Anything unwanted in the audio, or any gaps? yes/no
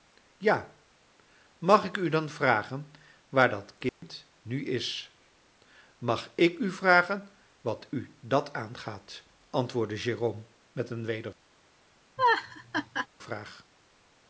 yes